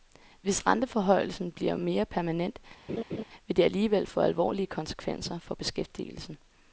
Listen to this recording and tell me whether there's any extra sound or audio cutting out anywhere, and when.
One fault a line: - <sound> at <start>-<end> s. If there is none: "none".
- laugh at 2.9-3.2 s